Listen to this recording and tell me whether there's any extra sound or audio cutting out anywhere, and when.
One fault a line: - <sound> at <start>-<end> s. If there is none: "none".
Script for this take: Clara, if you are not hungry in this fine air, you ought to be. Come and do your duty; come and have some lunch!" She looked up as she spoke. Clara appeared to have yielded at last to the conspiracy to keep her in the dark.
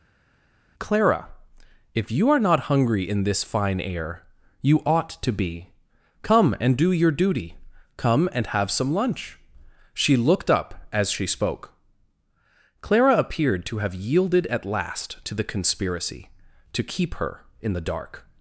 none